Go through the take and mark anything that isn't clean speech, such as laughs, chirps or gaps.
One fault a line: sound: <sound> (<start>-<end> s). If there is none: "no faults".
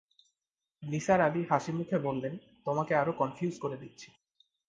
no faults